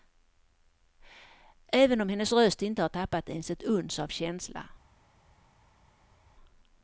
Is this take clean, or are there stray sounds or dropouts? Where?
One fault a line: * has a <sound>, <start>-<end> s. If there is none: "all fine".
all fine